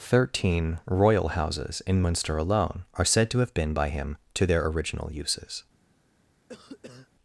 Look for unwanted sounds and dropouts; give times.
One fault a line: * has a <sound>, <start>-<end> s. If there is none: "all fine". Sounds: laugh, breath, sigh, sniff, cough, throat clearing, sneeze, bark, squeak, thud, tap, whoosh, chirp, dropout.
* has a cough, 6.5-7.1 s